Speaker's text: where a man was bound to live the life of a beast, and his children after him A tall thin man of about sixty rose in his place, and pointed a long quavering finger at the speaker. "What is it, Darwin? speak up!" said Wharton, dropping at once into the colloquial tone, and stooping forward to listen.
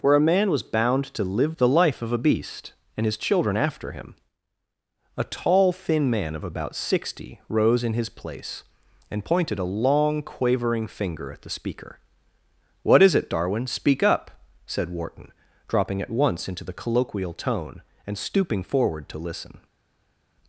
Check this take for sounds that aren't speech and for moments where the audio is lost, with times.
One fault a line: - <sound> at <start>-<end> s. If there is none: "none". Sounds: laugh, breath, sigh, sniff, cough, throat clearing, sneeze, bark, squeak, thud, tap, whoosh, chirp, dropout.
none